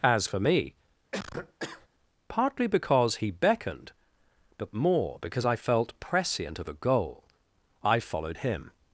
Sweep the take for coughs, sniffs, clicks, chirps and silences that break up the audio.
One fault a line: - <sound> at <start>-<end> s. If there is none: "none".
- cough at 1.1-1.9 s